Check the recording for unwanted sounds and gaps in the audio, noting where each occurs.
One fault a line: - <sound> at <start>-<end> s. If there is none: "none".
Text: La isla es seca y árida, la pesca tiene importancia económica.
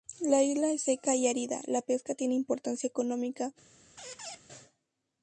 - squeak at 4.0-4.4 s